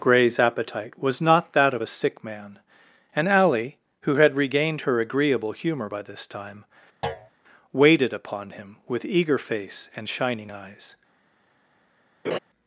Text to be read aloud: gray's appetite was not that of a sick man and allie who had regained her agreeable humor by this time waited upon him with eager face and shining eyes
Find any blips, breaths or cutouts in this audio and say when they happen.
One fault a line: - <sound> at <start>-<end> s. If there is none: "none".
- thud at 7.0-7.3 s
- laugh at 12.2-12.4 s